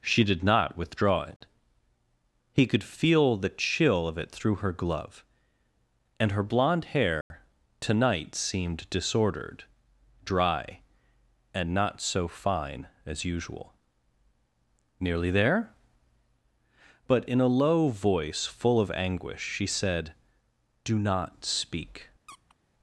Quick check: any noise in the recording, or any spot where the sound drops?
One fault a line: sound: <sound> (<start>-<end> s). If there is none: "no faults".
sound: dropout (7.2-7.3 s)
sound: squeak (22.3-22.6 s)